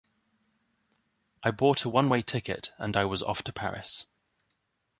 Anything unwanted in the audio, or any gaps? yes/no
no